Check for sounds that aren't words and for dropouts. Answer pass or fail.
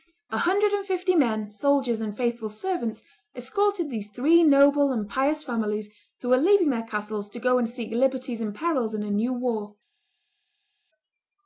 pass